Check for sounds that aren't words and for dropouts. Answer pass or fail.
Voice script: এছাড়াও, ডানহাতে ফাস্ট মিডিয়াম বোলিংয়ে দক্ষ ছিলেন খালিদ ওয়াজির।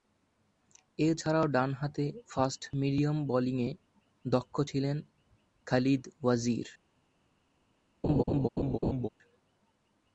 fail